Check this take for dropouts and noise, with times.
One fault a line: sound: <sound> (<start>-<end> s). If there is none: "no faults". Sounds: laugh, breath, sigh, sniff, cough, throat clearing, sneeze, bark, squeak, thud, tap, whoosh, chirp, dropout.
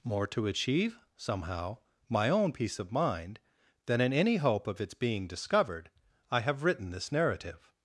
no faults